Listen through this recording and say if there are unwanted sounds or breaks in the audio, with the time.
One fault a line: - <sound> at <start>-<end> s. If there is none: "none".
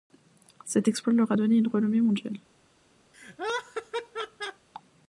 - laugh at 3.1-4.7 s